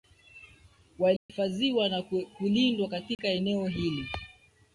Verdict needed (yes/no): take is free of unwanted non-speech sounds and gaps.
no